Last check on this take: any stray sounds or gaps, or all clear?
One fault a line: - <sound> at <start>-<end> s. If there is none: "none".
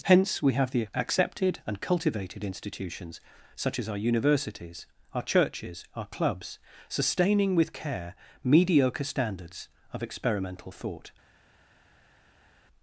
none